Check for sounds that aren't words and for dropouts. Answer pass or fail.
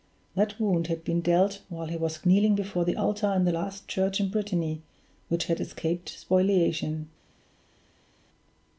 pass